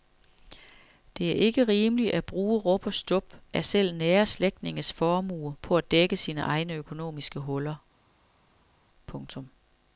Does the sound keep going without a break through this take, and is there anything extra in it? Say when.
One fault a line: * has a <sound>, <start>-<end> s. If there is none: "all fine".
all fine